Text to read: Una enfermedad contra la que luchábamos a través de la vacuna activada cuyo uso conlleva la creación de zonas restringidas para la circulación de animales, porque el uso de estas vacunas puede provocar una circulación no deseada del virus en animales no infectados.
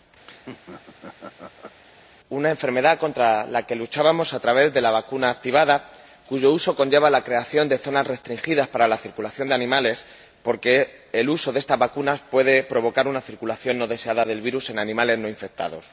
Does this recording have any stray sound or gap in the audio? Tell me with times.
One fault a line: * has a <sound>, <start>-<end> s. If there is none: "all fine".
* has a laugh, 0.2-1.8 s